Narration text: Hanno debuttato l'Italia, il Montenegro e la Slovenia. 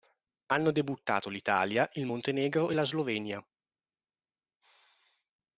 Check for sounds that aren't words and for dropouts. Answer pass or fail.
pass